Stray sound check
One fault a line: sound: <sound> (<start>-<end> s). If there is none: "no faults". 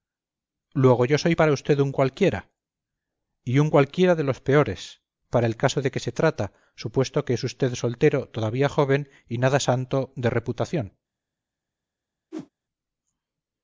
sound: whoosh (12.3-12.5 s)